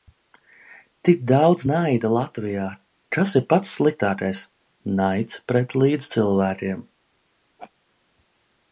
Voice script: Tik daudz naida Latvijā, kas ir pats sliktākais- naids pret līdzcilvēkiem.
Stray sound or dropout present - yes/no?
yes